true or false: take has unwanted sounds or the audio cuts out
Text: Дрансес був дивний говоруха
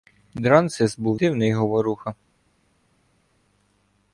false